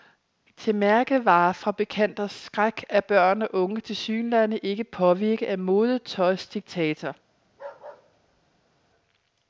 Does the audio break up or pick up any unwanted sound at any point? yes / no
yes